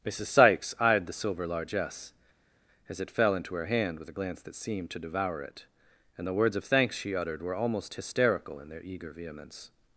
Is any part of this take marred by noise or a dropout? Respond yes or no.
no